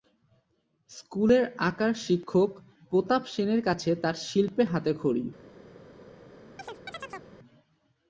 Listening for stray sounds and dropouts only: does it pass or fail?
fail